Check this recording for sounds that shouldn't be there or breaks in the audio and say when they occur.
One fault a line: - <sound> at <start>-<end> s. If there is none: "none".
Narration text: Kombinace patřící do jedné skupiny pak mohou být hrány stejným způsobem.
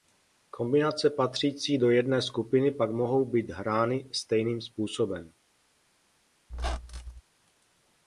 - squeak at 6.5-7.2 s